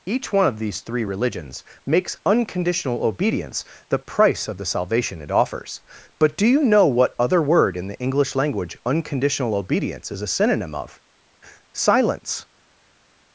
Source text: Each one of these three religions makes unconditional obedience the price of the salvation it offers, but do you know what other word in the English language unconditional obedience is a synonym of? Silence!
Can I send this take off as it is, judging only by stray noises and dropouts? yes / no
yes